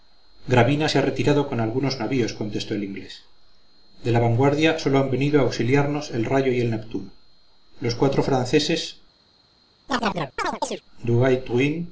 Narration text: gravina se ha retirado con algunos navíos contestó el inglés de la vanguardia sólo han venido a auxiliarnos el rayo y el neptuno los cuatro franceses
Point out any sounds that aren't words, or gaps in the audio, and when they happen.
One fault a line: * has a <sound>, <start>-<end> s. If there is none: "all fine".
* has a chirp, 9.9-10.8 s